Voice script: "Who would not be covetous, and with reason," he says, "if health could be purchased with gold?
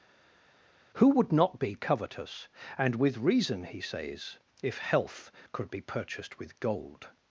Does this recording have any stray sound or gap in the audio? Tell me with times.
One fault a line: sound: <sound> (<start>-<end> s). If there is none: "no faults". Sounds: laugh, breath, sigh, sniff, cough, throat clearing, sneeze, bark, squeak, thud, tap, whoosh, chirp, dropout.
no faults